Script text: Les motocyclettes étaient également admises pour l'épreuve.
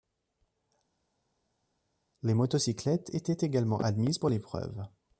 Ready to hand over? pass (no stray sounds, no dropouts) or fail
pass